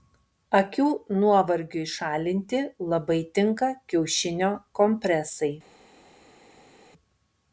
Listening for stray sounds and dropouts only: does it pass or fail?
pass